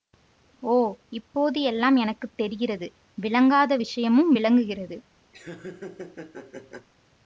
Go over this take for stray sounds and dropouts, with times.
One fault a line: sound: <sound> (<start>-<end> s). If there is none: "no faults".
sound: laugh (5.3-6.9 s)